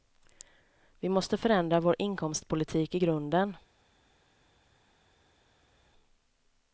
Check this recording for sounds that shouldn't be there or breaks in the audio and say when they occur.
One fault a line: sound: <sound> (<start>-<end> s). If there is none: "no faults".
no faults